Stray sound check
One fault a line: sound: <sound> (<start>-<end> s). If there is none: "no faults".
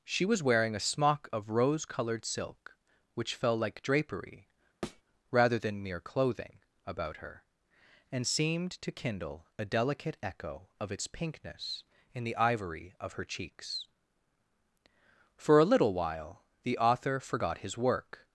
sound: thud (4.8-5.0 s)